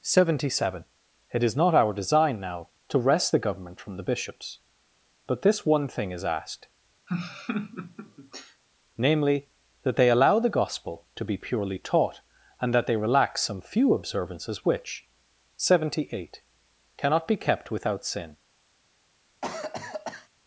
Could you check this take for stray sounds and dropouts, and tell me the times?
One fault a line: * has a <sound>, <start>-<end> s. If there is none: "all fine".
* has a laugh, 7.1-8.6 s
* has a cough, 19.4-20.3 s